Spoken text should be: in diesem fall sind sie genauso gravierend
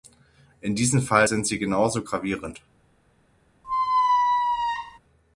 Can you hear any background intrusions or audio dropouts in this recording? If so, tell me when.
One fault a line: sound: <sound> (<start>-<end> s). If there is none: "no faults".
sound: squeak (3.6-5.0 s)